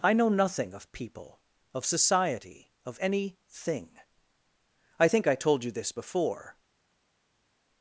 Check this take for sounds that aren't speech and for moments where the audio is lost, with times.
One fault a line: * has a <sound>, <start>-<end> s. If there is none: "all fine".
all fine